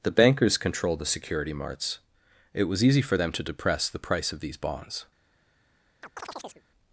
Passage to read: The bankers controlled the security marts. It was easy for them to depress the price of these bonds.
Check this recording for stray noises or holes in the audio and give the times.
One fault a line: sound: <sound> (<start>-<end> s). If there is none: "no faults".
sound: chirp (6.0-6.6 s)